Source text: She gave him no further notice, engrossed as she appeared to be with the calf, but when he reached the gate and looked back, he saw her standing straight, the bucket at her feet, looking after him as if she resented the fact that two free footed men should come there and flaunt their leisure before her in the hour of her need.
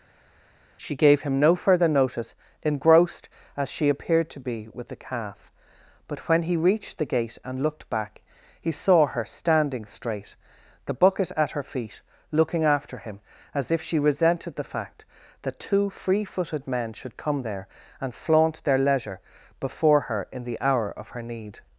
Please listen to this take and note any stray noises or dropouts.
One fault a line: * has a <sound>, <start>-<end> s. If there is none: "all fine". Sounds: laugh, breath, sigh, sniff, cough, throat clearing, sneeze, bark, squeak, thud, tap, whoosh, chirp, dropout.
all fine